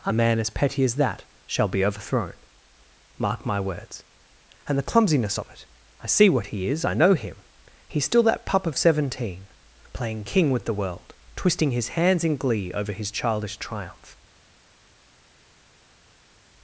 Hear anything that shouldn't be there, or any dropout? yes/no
no